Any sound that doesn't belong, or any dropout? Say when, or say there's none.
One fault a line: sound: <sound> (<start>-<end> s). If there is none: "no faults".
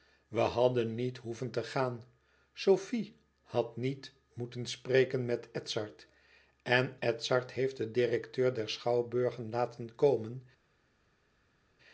no faults